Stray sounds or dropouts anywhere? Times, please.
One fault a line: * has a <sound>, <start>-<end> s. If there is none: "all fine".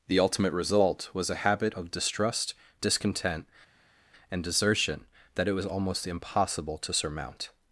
all fine